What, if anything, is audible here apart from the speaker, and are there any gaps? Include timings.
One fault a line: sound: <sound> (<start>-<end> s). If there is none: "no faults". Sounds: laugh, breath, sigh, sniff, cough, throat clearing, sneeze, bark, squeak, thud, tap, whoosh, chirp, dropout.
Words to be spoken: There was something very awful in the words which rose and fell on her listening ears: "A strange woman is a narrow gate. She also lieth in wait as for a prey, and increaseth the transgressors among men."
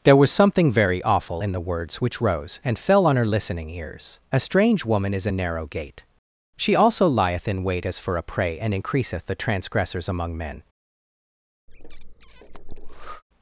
sound: breath (11.7-13.2 s)